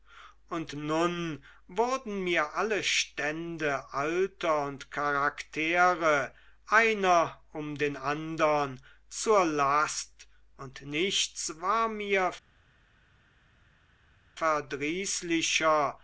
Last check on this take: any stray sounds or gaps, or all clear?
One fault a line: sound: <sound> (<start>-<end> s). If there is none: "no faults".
no faults